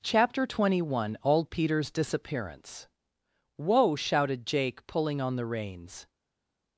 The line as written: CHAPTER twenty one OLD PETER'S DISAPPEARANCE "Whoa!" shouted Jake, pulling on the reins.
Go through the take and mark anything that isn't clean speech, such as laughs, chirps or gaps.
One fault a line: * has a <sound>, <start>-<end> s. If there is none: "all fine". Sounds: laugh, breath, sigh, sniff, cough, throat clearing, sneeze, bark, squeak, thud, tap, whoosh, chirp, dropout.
all fine